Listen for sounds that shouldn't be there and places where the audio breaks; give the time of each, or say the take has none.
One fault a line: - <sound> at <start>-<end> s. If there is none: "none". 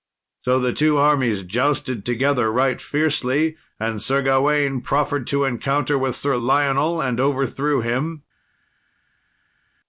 none